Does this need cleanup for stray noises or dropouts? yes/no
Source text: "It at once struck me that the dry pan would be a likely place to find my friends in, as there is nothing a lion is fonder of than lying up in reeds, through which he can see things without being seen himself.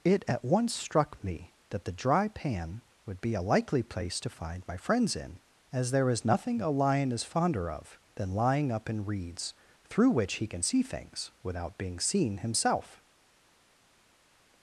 no